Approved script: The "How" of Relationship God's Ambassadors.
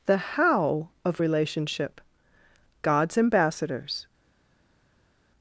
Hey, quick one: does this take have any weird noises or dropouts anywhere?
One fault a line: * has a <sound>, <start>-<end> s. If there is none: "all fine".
all fine